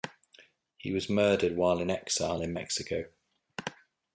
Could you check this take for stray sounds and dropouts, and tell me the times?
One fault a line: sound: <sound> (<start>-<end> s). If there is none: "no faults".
no faults